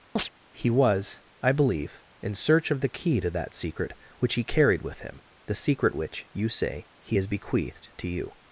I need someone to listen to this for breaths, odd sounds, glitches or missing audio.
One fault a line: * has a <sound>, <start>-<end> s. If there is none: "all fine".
* has a chirp, 0.2-0.3 s